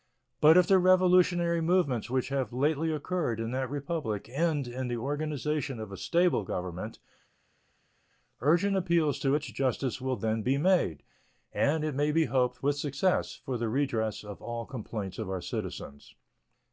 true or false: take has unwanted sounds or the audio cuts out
false